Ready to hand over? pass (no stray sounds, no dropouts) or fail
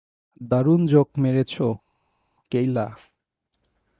pass